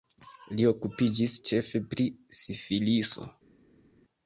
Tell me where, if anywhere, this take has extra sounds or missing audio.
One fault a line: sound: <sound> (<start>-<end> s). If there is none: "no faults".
no faults